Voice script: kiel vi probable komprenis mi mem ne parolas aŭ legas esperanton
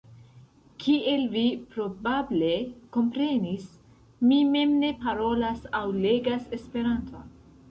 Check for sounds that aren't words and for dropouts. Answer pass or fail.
pass